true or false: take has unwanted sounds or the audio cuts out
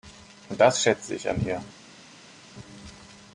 false